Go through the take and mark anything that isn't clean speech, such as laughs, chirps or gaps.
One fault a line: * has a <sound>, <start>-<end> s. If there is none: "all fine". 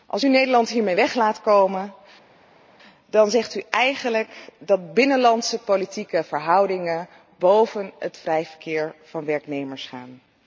all fine